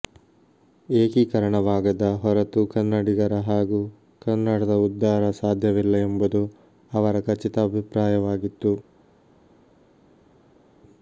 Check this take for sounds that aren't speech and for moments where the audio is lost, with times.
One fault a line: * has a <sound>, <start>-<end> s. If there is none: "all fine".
all fine